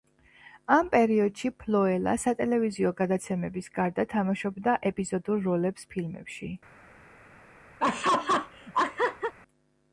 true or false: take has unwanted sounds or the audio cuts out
true